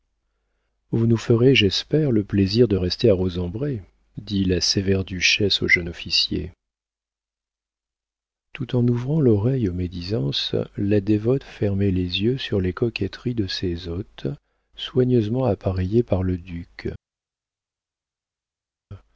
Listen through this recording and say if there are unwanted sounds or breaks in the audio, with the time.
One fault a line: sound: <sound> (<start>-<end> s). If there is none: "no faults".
no faults